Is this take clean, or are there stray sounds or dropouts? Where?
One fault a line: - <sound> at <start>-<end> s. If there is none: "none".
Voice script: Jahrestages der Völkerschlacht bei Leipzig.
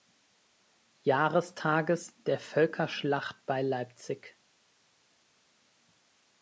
none